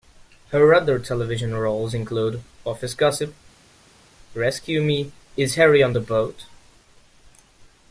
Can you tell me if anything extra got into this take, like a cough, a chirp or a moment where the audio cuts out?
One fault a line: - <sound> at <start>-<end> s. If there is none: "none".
none